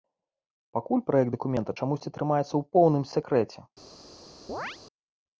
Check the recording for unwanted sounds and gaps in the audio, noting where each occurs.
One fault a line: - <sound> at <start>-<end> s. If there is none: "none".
- chirp at 4.5-4.8 s